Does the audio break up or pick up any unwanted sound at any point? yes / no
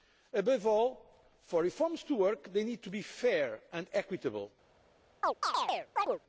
yes